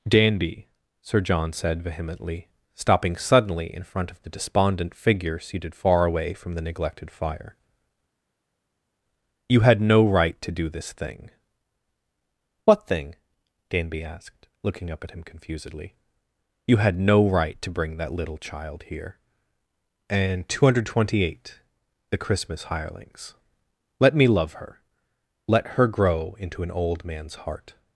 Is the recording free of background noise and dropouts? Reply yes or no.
yes